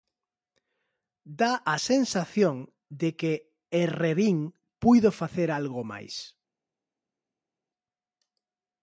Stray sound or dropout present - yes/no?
no